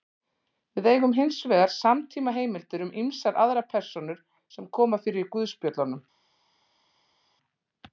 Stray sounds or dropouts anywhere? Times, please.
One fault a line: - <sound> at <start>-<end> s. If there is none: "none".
none